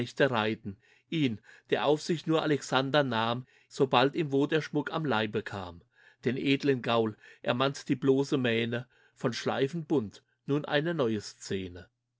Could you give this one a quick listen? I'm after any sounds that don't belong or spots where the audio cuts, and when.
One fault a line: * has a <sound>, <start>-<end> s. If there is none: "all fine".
all fine